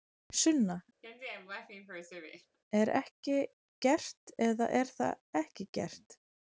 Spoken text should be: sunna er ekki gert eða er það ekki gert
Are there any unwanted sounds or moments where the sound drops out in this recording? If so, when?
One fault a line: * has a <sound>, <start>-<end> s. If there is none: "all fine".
* has a laugh, 1.0-2.6 s